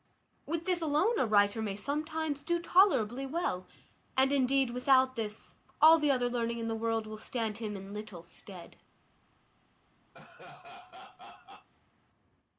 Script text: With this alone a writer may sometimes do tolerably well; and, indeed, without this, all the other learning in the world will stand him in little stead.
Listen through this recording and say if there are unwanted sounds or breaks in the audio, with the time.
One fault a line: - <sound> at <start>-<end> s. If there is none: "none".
- laugh at 10.1-11.7 s